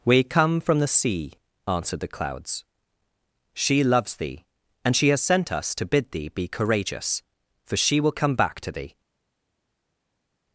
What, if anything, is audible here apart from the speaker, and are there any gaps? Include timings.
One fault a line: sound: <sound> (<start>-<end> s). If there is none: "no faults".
no faults